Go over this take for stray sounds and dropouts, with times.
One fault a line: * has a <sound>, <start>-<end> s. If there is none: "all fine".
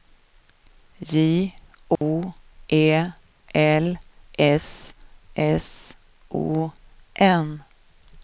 * has a dropout, 2.0-2.0 s